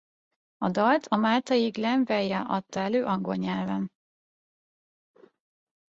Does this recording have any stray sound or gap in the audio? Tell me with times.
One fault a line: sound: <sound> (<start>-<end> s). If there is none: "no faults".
no faults